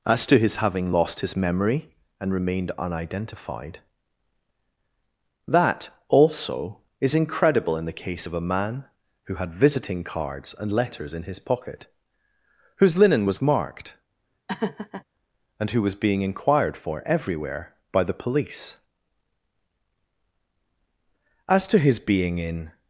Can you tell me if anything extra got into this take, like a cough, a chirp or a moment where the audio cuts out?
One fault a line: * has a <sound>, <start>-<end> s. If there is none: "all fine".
* has a laugh, 14.5-15.0 s